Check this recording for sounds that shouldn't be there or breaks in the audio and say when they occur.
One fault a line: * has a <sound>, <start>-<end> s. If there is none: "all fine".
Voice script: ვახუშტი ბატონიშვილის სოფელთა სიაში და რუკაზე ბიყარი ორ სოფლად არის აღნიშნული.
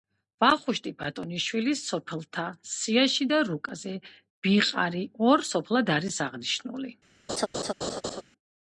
* has a laugh, 7.3-8.2 s